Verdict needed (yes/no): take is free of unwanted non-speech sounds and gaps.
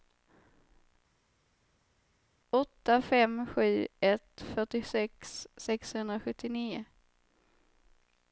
yes